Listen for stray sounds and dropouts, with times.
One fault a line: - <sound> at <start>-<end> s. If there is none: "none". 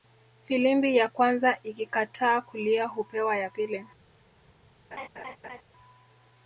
- laugh at 4.9-5.6 s